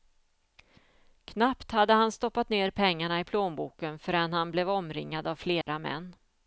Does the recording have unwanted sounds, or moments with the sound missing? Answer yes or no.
yes